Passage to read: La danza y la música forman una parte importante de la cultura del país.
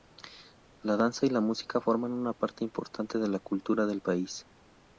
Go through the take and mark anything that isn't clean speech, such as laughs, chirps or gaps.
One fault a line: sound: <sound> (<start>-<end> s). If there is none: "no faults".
no faults